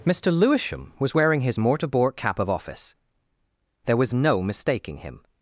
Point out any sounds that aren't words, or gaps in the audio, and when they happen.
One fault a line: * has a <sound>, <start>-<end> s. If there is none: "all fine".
all fine